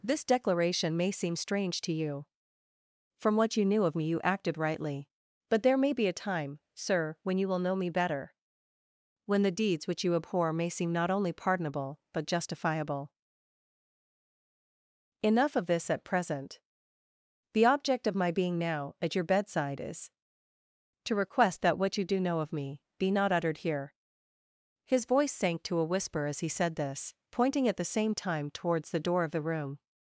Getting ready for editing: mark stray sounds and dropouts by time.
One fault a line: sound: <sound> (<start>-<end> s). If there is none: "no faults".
no faults